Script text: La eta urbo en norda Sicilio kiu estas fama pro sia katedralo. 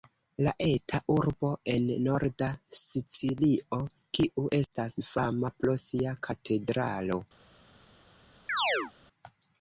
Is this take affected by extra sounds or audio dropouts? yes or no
yes